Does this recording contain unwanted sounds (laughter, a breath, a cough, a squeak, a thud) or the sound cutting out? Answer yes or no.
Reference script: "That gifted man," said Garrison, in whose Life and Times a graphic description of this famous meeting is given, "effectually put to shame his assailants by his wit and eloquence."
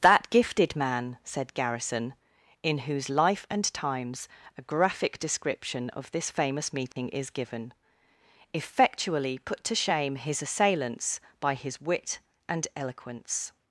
yes